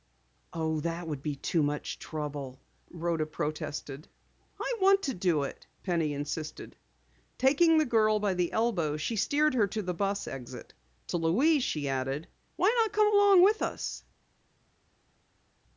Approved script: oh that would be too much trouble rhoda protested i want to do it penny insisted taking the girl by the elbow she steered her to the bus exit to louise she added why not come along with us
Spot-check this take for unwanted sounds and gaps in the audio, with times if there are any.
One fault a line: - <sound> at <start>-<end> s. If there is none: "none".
none